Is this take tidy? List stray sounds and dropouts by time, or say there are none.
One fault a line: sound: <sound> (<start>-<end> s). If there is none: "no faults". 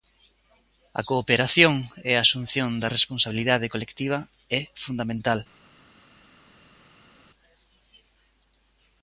no faults